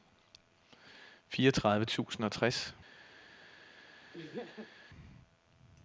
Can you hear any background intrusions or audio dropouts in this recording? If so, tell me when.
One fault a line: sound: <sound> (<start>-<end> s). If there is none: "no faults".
sound: laugh (4.1-4.7 s)